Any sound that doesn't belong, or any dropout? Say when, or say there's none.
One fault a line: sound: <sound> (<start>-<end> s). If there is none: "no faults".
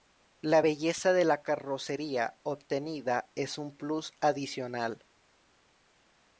no faults